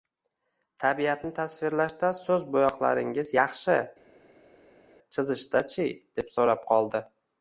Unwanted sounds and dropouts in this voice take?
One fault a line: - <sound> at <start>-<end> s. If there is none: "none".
none